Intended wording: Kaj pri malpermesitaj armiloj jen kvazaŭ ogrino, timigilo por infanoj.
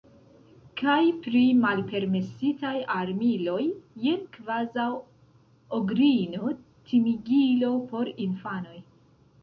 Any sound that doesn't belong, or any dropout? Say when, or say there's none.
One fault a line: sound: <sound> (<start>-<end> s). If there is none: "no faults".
no faults